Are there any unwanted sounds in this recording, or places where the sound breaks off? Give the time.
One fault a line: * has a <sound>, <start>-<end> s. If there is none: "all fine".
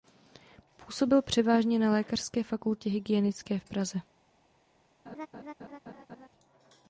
* has a laugh, 5.1-6.3 s